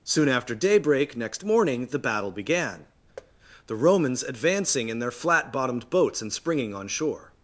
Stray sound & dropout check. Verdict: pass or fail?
fail